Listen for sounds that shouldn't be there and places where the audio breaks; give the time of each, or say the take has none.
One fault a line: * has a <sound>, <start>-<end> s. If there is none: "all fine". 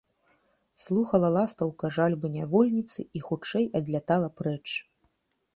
all fine